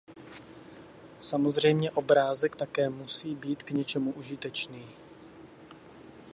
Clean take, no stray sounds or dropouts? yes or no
yes